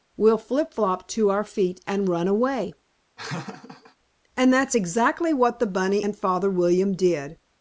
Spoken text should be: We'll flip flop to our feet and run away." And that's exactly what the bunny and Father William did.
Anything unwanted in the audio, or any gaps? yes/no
yes